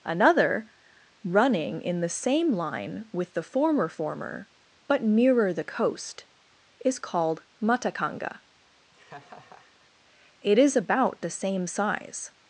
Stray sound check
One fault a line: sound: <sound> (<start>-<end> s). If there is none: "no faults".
sound: laugh (8.9-9.9 s)